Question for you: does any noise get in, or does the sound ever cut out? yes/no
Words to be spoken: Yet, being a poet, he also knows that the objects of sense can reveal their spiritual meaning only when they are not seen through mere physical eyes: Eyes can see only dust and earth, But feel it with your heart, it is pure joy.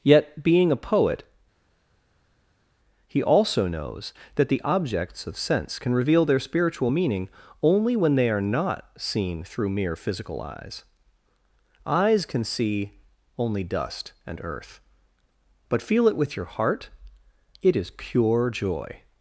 no